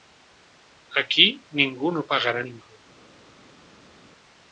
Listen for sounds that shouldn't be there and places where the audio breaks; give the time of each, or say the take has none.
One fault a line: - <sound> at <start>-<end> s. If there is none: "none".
none